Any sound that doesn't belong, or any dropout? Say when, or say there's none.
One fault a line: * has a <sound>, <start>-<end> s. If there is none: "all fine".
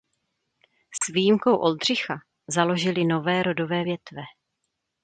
* has a dropout, 1.0-1.0 s